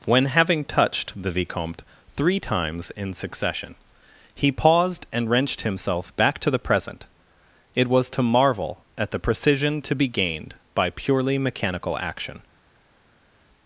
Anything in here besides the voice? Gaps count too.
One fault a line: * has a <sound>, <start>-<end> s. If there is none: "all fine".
all fine